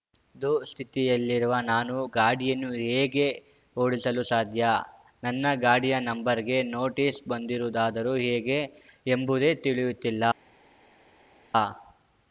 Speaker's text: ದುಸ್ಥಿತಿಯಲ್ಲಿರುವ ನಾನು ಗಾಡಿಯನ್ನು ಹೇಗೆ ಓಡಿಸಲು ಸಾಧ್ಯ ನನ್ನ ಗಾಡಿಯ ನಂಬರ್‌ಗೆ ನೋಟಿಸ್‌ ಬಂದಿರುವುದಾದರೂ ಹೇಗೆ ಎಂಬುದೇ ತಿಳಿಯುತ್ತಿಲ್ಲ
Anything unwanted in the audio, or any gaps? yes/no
no